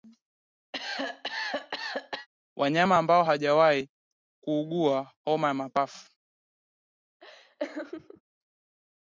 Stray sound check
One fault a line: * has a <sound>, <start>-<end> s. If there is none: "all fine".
* has a cough, 0.7-2.3 s
* has a laugh, 7.2-8.2 s